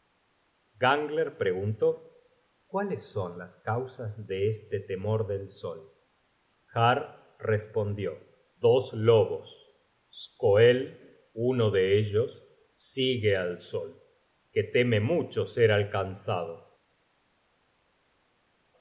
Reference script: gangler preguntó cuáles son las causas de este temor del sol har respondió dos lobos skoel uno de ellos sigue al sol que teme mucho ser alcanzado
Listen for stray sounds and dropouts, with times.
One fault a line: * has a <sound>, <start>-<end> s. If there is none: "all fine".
all fine